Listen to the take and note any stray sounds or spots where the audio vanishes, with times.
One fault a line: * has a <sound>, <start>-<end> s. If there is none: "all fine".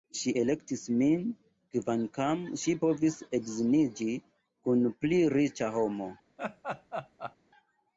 * has a laugh, 6.4-7.4 s